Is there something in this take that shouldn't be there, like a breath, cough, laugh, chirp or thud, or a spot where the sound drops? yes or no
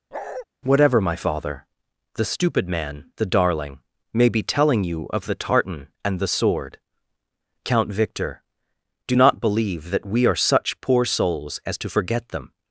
yes